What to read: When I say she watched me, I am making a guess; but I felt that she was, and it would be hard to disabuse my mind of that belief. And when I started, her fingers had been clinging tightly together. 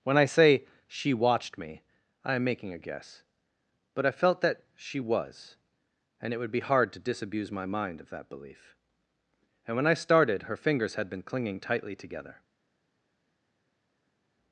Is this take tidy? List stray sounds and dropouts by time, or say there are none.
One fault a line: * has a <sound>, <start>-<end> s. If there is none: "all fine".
all fine